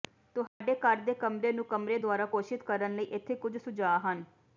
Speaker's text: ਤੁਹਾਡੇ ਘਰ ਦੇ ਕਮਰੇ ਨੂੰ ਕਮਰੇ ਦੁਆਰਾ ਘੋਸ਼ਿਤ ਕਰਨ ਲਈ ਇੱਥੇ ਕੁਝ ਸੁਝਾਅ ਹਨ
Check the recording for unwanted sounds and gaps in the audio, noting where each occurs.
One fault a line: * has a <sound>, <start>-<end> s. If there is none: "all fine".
* has a dropout, 0.5-0.6 s